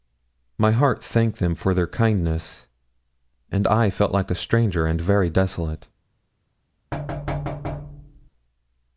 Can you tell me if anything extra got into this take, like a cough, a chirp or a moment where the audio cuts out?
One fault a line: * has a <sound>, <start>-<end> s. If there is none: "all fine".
* has a thud, 6.9-8.3 s